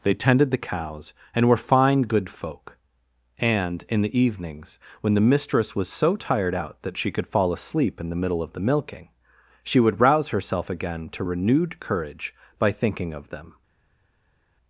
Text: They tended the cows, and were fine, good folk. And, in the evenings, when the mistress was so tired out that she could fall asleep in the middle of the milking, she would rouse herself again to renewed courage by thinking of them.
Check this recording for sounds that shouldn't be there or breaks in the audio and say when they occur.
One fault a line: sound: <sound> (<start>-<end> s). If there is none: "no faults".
no faults